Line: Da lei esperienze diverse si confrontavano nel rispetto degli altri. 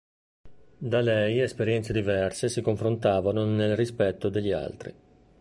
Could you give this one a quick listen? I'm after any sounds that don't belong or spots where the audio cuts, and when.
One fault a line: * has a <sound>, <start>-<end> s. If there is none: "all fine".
all fine